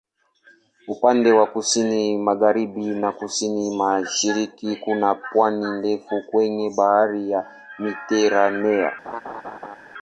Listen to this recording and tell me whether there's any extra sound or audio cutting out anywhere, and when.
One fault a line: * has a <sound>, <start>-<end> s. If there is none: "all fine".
* has a laugh, 9.0-9.8 s